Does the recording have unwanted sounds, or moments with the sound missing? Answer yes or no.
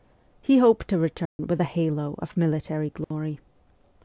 yes